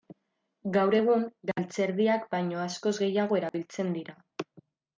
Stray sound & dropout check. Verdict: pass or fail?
fail